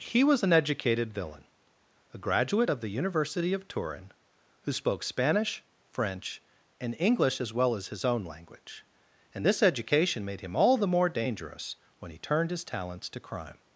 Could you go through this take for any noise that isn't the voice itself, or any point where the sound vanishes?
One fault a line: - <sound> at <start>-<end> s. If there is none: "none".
none